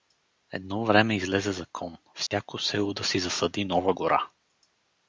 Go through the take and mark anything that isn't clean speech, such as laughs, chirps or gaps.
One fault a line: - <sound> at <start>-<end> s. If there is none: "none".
- dropout at 2.3-2.3 s